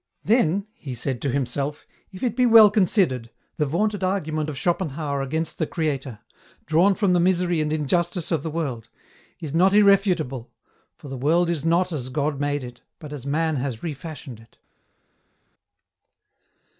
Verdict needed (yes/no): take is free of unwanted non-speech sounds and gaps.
yes